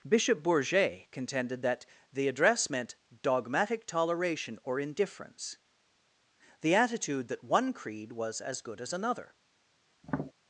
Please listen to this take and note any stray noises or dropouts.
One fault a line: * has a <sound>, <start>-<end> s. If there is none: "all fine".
* has a tap, 10.0-10.3 s